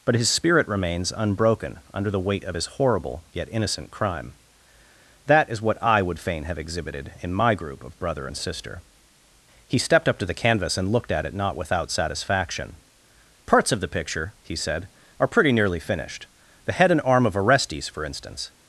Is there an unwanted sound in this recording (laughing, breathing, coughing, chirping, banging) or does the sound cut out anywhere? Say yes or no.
no